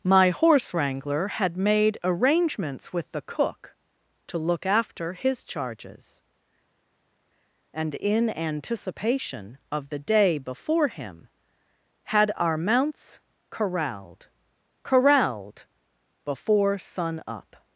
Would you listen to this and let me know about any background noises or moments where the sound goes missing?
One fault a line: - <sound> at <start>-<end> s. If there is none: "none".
none